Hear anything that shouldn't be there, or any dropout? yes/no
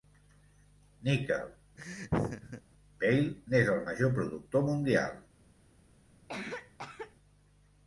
yes